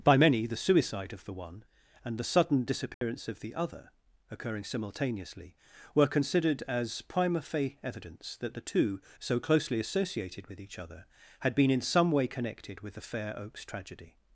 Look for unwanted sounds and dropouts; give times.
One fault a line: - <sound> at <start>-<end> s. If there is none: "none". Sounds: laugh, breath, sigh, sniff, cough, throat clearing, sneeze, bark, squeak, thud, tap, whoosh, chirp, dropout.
- dropout at 2.9-3.0 s